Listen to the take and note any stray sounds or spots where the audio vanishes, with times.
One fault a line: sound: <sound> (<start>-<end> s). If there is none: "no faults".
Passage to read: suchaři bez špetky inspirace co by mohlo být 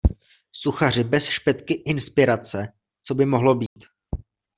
sound: dropout (3.7-3.8 s)